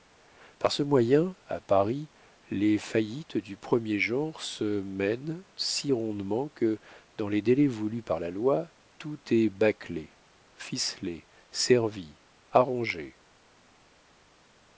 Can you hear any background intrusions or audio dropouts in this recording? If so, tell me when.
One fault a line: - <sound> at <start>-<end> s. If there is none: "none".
none